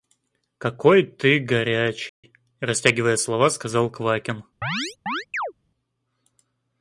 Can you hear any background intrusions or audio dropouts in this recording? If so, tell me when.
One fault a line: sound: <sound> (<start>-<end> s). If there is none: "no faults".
sound: dropout (2.1-2.2 s)
sound: chirp (4.6-5.5 s)